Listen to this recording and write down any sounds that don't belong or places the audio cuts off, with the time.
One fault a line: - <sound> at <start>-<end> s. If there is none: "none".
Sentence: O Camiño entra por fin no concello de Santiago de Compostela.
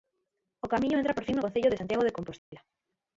- dropout at 2.4-2.5 s